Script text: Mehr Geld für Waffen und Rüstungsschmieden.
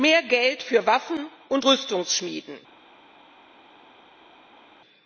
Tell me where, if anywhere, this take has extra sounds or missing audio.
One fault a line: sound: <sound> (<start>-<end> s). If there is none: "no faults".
no faults